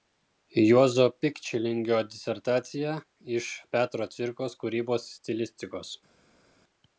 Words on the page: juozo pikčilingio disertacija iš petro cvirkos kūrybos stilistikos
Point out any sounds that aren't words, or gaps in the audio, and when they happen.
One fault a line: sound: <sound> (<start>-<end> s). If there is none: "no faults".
no faults